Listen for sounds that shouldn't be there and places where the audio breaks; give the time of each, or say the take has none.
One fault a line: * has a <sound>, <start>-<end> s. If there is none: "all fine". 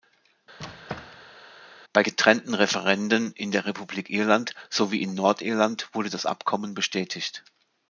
* has a squeak, 0.6-1.4 s